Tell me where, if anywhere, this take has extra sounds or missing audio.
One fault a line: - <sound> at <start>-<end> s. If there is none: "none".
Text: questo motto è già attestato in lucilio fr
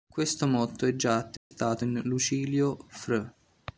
- dropout at 1.4-1.5 s